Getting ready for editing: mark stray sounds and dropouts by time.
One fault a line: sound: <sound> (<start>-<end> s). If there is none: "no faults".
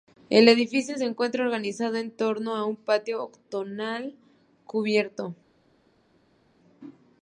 no faults